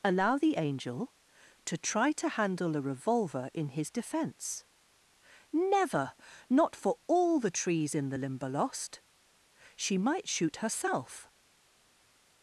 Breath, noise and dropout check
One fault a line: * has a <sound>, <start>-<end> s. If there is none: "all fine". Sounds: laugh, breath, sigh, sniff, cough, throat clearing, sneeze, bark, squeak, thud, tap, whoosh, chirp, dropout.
all fine